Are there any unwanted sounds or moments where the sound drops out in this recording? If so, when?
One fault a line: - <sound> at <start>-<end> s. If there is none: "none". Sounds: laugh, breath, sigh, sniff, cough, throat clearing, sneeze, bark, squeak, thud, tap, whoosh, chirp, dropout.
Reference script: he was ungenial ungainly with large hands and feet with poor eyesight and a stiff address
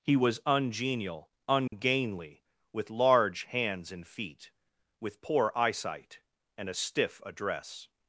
- dropout at 1.7-1.7 s